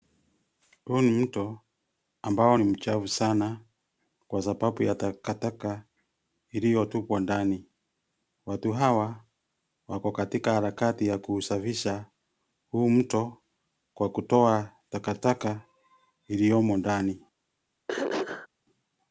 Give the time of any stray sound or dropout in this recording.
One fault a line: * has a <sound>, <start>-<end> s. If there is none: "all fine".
* has a throat clearing, 17.9-18.5 s